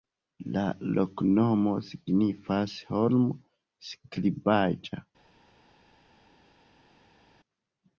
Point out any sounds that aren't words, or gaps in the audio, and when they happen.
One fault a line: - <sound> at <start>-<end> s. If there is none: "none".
none